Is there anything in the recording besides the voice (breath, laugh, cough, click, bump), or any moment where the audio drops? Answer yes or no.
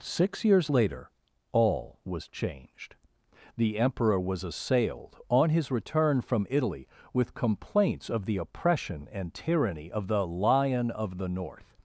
no